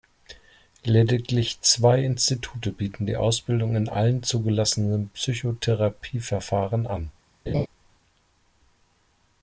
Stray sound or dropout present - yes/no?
yes